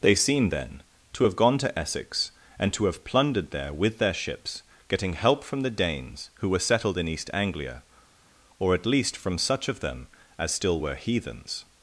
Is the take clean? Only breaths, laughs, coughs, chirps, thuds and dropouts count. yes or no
yes